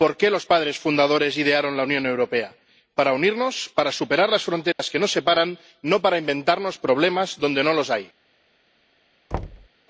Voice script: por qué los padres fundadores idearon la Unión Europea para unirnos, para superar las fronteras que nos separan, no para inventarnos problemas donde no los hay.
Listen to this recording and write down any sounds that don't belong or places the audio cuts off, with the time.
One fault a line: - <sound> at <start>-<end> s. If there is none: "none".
- dropout at 4.7-4.8 s
- thud at 9.3-9.7 s